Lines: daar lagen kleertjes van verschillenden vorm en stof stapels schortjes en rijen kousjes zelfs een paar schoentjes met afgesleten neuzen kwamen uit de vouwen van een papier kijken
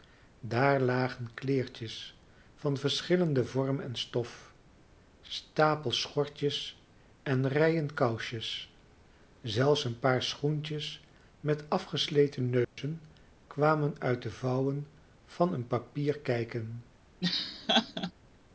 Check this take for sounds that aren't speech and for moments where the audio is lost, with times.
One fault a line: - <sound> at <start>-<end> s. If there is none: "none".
- dropout at 12.6-12.8 s
- laugh at 17.2-18.1 s